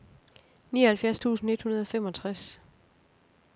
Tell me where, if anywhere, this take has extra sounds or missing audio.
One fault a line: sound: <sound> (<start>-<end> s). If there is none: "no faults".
no faults